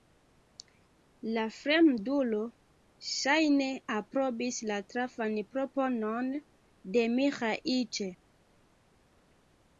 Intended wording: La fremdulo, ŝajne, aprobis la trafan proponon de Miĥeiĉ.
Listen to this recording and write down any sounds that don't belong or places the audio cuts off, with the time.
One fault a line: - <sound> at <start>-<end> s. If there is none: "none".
none